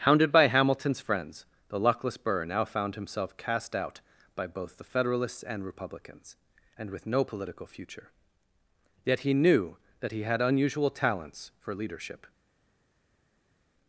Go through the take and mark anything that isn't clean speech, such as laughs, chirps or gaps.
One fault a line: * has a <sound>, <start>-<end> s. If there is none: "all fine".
all fine